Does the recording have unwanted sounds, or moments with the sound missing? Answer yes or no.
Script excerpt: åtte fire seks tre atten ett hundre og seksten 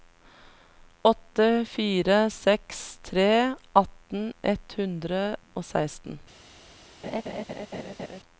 yes